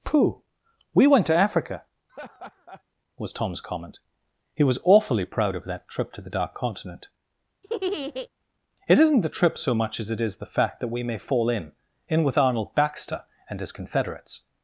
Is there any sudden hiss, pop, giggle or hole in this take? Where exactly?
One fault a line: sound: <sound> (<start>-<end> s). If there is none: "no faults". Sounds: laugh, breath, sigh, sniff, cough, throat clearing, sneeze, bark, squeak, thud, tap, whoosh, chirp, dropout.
sound: laugh (2.1-2.8 s)
sound: laugh (7.6-8.3 s)